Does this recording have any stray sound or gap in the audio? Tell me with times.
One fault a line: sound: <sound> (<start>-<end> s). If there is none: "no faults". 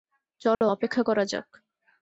sound: dropout (0.5-0.6 s)